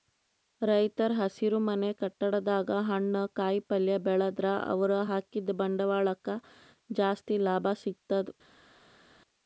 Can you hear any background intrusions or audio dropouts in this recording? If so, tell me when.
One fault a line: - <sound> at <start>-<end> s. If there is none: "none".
none